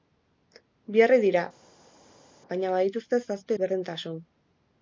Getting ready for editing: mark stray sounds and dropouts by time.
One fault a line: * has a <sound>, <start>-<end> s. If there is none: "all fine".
all fine